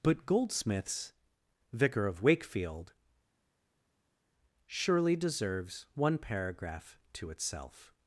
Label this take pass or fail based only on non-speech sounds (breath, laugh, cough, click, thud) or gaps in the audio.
pass